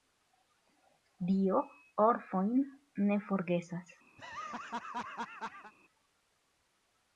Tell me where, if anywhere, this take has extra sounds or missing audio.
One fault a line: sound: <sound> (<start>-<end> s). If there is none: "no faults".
sound: laugh (4.2-5.7 s)